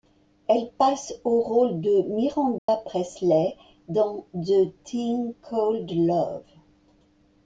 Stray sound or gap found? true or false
true